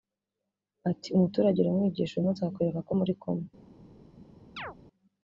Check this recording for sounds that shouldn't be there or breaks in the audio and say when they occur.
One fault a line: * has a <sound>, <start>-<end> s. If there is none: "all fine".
* has a chirp, 4.6-4.8 s